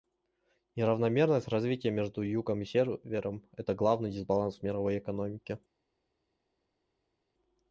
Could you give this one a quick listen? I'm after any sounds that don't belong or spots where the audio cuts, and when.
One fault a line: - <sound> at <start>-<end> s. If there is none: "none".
none